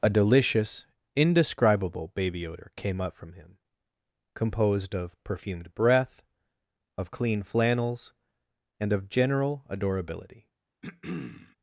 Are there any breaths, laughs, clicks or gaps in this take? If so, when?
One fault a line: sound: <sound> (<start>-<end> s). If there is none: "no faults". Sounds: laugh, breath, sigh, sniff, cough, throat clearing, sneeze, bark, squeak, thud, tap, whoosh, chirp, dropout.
sound: throat clearing (10.8-11.6 s)